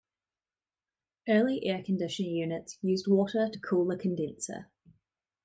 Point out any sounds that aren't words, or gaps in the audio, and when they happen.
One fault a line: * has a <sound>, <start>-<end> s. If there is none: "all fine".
all fine